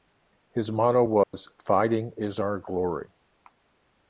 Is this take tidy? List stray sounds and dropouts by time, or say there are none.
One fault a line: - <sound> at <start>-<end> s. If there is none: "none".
- dropout at 1.2-1.3 s